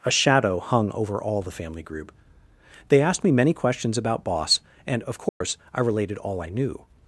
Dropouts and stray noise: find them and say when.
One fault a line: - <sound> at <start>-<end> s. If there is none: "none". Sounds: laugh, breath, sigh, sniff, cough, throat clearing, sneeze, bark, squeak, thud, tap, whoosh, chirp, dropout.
- dropout at 5.3-5.4 s